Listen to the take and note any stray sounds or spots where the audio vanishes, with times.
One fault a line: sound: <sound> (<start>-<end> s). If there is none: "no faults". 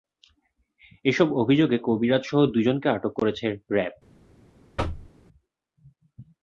sound: thud (4.8-5.1 s)